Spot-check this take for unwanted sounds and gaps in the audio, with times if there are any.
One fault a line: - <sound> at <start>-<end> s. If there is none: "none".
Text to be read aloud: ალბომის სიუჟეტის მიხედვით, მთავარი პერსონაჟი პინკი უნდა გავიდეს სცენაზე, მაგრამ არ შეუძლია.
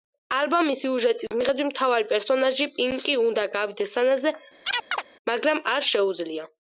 - chirp at 4.7-5.0 s